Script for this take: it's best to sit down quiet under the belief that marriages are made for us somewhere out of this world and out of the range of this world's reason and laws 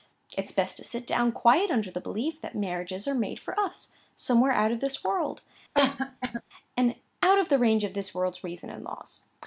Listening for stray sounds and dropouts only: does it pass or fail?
fail